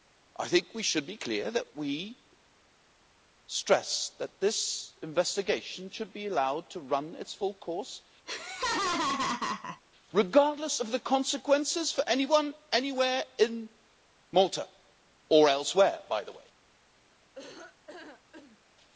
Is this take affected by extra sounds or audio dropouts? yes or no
yes